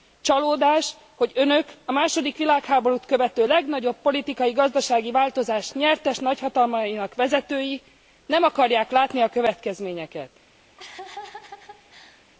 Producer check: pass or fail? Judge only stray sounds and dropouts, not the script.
fail